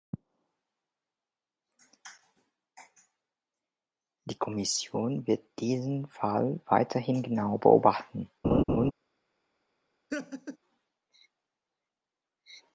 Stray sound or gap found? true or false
true